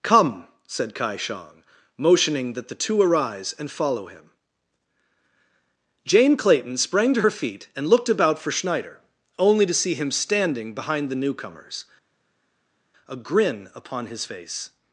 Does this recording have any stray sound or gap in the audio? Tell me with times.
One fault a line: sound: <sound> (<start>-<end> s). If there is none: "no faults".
no faults